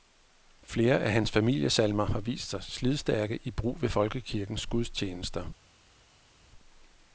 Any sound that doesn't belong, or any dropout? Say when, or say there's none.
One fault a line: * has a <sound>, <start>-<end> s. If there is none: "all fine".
all fine